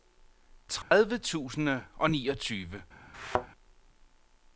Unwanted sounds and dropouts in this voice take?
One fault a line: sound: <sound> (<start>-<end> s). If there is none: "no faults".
sound: dropout (0.8-0.9 s)
sound: thud (3.1-3.5 s)